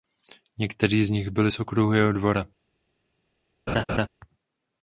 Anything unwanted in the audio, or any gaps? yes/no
yes